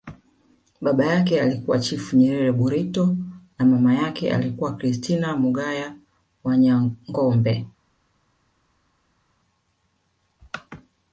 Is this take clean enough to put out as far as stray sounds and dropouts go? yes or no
yes